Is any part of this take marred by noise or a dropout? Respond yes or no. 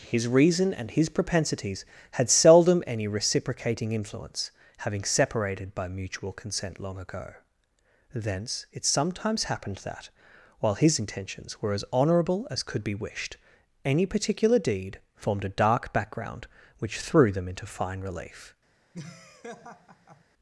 yes